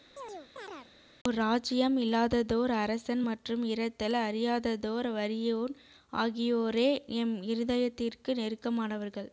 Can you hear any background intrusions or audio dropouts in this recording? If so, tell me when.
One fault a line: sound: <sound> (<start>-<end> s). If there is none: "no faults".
sound: chirp (0.2-0.9 s)